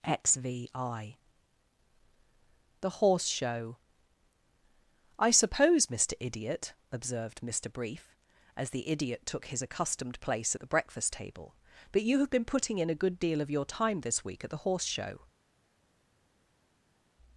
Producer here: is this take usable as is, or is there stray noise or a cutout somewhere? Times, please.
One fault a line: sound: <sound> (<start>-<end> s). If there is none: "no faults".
no faults